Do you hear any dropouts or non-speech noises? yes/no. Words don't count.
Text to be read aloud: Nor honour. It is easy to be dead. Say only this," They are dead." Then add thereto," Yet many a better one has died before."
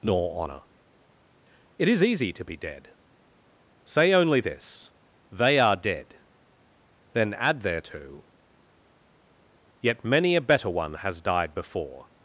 no